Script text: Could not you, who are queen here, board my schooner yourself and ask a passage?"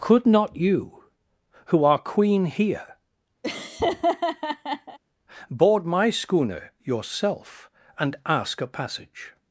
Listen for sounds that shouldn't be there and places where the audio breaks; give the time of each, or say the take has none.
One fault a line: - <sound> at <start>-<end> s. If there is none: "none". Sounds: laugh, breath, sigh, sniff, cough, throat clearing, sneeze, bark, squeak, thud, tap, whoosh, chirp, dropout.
- laugh at 3.4-5.0 s